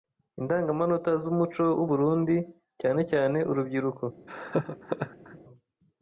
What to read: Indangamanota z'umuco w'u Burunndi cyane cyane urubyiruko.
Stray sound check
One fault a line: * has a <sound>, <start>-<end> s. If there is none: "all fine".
* has a laugh, 4.3-5.4 s